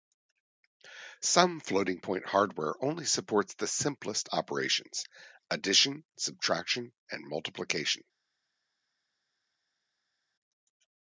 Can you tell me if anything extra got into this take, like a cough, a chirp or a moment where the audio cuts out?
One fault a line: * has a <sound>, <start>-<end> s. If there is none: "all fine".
all fine